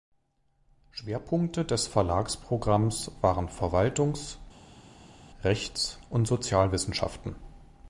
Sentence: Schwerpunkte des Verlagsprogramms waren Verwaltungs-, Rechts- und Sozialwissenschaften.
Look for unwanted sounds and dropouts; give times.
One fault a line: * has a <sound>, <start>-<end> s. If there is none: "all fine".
all fine